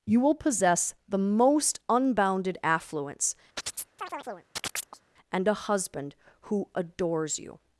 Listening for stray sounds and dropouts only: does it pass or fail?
fail